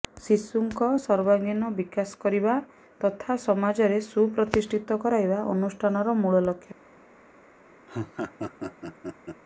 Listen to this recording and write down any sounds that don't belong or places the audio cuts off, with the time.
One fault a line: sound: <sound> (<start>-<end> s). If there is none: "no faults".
sound: laugh (7.9-9.4 s)